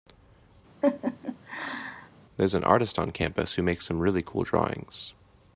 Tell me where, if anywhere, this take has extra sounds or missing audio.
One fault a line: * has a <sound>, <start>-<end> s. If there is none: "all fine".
* has a laugh, 0.8-2.1 s